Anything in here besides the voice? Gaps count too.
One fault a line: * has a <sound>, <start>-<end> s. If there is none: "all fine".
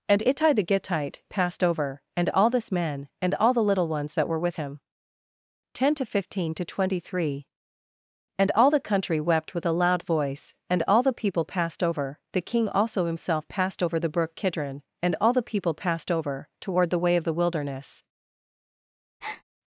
* has a breath, 19.2-19.4 s